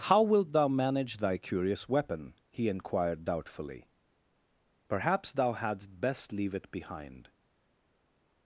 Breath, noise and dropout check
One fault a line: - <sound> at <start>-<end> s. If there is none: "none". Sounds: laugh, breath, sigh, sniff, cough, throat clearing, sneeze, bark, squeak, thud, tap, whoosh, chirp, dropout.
none